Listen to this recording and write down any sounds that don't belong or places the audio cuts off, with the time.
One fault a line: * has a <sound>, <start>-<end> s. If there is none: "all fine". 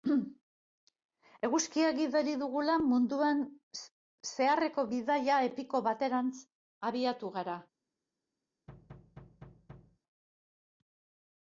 * has a thud, 8.7-10.0 s